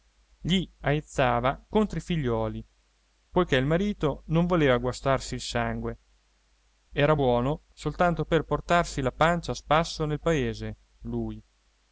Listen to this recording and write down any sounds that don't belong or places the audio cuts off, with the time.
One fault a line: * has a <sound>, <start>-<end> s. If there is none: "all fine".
all fine